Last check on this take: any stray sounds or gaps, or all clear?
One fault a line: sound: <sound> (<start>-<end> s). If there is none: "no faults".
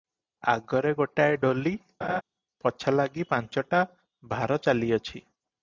sound: laugh (2.0-2.2 s)